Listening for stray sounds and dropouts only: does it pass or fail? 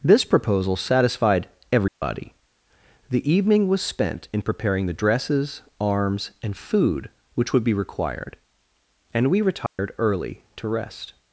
fail